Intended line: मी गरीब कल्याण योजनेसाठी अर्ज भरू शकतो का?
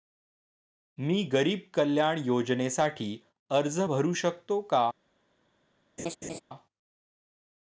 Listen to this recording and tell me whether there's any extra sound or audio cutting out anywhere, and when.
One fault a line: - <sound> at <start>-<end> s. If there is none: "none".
- laugh at 6.0-6.4 s